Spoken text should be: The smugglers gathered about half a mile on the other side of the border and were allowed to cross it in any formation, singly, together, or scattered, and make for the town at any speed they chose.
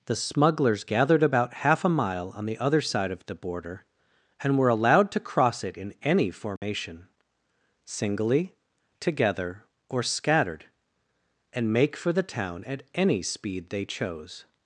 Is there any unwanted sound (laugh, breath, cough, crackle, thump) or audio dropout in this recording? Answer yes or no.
yes